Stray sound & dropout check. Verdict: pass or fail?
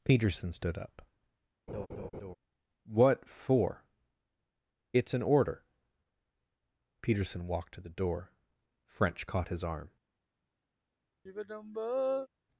fail